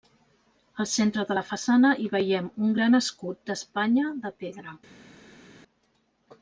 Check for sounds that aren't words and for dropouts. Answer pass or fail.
pass